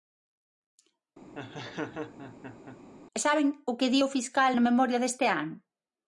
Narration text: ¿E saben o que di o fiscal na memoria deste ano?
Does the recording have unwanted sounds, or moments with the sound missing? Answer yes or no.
yes